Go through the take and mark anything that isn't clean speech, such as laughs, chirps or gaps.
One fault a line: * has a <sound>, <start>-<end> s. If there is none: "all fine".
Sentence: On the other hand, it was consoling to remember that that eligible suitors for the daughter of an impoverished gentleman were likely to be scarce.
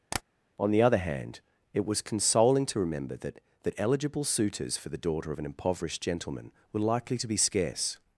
* has a tap, 0.1-0.2 s